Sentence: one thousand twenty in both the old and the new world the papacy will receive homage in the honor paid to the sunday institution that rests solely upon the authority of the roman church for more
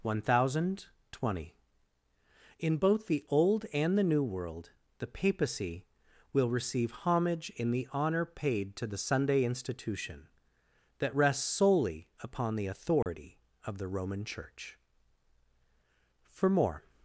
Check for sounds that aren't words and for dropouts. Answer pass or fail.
fail